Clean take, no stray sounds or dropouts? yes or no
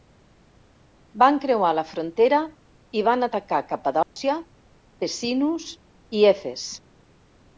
no